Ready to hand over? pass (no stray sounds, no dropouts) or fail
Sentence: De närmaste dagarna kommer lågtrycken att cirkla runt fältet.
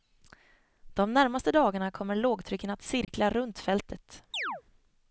fail